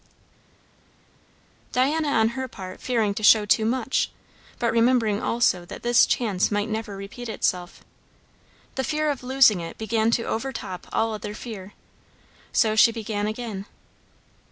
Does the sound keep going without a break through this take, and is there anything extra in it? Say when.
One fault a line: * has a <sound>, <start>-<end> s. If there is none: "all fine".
all fine